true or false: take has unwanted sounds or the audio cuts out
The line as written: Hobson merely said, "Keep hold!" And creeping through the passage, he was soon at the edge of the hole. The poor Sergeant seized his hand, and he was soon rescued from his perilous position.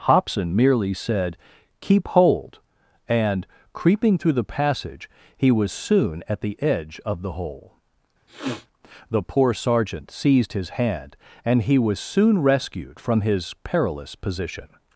true